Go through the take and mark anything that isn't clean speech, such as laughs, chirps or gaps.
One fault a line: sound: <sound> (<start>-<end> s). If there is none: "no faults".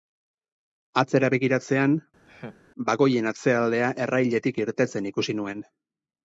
sound: laugh (2.2-2.6 s)